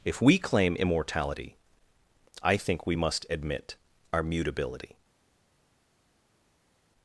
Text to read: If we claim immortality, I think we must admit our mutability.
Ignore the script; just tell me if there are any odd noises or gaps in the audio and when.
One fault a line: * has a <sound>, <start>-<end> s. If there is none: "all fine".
all fine